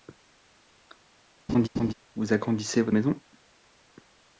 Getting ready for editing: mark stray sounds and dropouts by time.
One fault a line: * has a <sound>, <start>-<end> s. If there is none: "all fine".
* has a laugh, 1.5-1.9 s